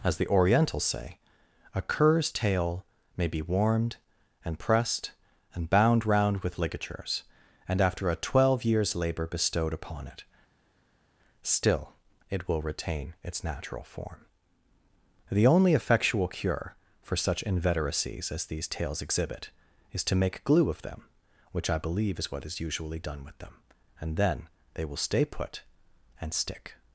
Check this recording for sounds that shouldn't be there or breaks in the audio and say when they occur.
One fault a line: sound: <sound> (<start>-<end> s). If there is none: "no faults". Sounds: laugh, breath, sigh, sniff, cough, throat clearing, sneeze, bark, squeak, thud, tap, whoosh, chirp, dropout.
no faults